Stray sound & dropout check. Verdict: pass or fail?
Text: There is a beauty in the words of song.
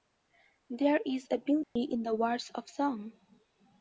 fail